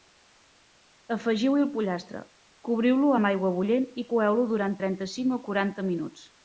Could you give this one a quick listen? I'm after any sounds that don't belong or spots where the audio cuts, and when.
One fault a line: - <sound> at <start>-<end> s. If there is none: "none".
none